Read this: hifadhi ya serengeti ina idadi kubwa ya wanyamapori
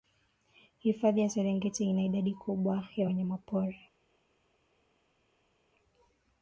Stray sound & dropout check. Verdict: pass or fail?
pass